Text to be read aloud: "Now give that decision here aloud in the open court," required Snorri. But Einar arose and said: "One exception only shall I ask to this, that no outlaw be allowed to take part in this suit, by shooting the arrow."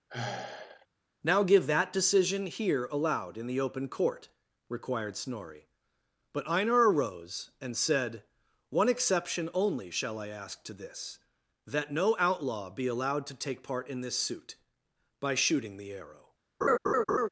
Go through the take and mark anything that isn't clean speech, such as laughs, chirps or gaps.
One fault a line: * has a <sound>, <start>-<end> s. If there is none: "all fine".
* has a sigh, 0.1-0.9 s
* has a laugh, 16.6-17.3 s